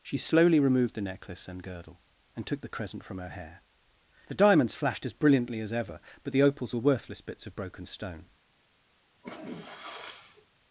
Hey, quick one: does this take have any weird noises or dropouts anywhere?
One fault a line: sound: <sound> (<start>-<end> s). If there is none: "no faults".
sound: sneeze (9.2-10.5 s)